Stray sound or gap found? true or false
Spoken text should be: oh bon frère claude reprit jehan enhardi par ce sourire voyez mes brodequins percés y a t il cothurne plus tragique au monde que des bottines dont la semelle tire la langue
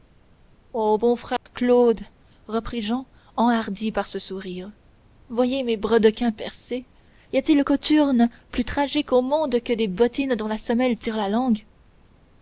true